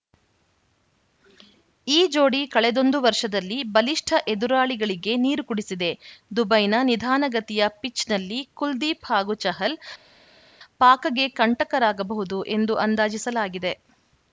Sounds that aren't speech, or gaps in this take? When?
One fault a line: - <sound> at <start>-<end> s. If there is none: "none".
none